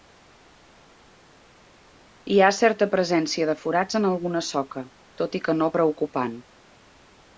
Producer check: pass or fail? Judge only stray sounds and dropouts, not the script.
pass